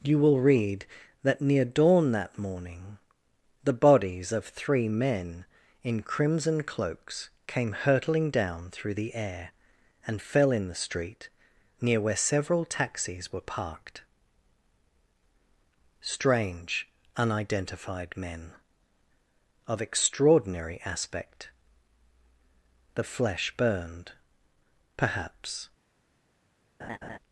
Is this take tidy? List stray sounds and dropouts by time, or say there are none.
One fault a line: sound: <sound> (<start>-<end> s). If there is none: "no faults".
sound: laugh (26.8-27.2 s)